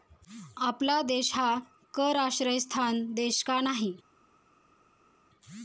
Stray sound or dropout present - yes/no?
no